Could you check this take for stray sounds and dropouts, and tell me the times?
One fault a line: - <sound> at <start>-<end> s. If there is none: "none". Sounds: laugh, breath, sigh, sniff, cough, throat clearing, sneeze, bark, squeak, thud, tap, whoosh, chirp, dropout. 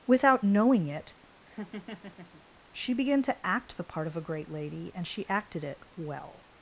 - laugh at 1.4-2.4 s